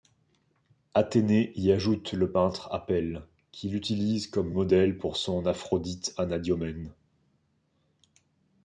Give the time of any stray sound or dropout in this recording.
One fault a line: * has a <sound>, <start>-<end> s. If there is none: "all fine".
all fine